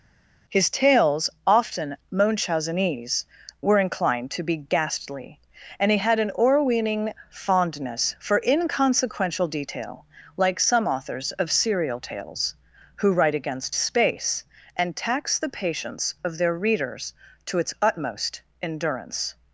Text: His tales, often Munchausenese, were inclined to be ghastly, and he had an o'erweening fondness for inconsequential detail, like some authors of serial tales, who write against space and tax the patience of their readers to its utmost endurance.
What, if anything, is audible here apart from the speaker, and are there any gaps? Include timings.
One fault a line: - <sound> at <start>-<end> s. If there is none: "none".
none